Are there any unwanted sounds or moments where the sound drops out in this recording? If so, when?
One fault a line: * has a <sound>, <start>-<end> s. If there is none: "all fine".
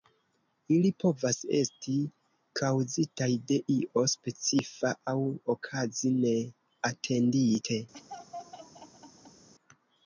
* has a laugh, 7.9-9.5 s